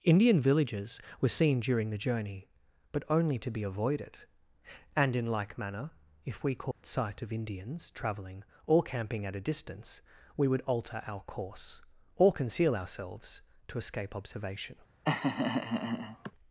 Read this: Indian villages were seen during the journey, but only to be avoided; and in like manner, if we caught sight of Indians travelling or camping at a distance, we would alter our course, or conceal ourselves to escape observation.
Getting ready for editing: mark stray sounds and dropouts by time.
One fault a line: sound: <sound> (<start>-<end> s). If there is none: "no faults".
sound: dropout (6.7-6.8 s)
sound: laugh (15.0-16.3 s)